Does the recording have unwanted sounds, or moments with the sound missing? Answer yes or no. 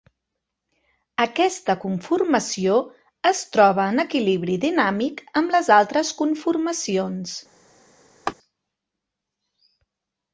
yes